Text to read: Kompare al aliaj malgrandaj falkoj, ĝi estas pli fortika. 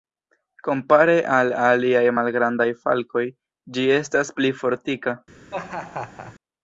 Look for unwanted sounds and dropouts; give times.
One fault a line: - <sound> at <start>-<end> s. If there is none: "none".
- laugh at 5.5-6.4 s